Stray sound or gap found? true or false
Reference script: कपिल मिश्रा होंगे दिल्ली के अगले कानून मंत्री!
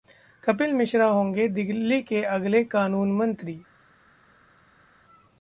false